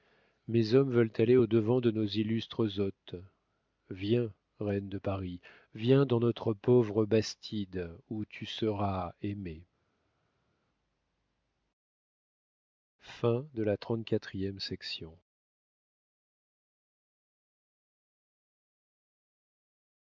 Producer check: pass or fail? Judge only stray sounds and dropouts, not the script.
pass